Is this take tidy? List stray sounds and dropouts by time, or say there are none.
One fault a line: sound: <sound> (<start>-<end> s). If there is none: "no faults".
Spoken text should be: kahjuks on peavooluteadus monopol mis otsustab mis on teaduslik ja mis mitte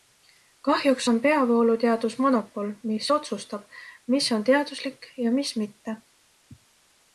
no faults